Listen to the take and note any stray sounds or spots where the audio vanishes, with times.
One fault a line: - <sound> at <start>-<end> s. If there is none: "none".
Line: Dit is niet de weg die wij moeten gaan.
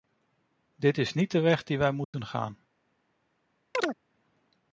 - dropout at 2.0-2.1 s
- chirp at 3.7-4.0 s